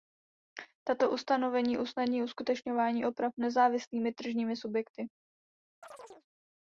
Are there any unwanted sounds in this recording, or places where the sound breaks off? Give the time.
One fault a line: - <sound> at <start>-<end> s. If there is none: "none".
- chirp at 5.8-6.3 s